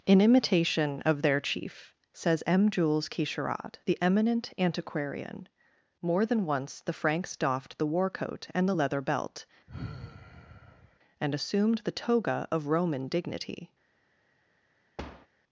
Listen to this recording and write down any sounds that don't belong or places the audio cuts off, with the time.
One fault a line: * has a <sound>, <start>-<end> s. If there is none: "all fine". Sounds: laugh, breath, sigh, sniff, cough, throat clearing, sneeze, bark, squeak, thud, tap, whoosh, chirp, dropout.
* has a sigh, 9.7-11.0 s
* has a thud, 15.0-15.3 s